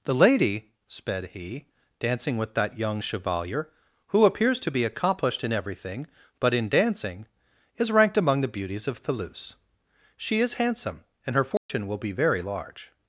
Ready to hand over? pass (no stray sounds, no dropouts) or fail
fail